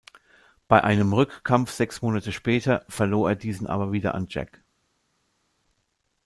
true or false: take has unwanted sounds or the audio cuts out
false